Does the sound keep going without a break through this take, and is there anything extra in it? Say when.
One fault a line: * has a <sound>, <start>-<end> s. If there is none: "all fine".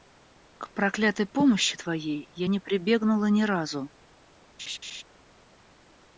* has a laugh, 4.6-5.0 s